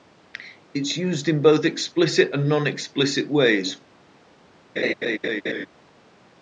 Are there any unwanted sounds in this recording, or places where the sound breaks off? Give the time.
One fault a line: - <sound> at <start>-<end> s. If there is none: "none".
- laugh at 4.8-5.7 s